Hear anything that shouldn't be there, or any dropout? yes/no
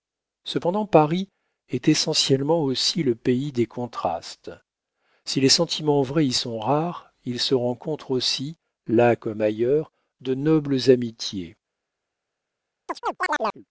yes